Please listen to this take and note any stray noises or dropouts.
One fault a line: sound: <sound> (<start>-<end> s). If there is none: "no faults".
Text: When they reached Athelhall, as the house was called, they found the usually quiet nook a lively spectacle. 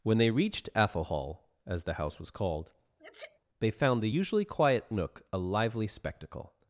sound: sneeze (3.0-3.4 s)